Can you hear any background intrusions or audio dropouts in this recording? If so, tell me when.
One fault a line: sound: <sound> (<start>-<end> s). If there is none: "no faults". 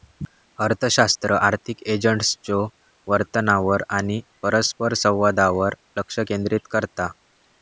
no faults